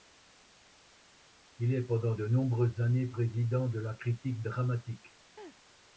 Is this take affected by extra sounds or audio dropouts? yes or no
yes